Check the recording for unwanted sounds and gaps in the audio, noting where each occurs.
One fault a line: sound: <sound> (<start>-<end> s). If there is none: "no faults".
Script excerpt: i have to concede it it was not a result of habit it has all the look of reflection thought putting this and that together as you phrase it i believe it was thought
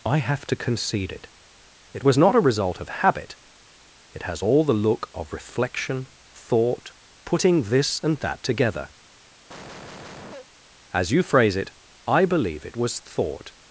sound: cough (9.5-10.5 s)